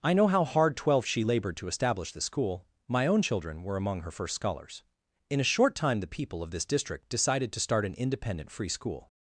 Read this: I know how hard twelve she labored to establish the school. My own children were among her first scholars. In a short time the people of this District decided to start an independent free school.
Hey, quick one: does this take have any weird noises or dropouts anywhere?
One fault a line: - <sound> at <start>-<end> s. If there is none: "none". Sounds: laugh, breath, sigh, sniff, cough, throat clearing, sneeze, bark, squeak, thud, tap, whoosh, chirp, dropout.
none